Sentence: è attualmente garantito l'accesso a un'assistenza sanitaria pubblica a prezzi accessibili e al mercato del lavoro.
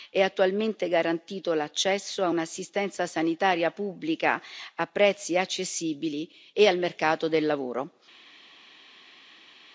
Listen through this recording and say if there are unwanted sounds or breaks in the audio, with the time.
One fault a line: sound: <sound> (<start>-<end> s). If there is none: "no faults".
no faults